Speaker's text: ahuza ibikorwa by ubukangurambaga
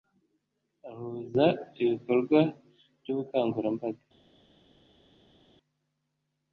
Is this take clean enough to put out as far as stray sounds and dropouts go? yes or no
yes